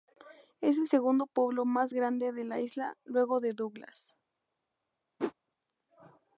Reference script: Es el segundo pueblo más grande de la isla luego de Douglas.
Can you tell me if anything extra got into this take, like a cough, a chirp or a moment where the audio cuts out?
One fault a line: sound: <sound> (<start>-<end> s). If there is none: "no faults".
sound: whoosh (5.2-5.3 s)